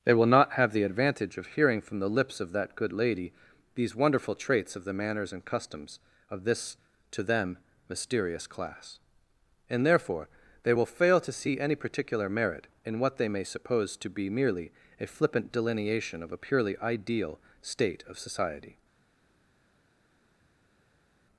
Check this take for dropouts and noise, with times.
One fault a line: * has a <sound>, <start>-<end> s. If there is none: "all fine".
all fine